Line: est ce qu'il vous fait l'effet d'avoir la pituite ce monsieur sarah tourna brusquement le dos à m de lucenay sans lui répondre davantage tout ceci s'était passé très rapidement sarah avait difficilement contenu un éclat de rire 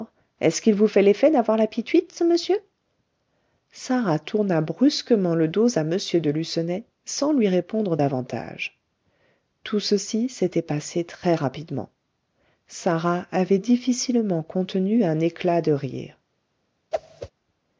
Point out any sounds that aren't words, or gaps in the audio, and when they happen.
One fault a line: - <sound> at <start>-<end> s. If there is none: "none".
- whoosh at 16.9-17.3 s